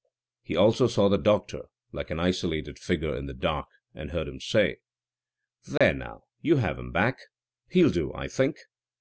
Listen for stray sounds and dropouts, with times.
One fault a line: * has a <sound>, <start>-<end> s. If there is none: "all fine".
* has a dropout, 5.8-5.8 s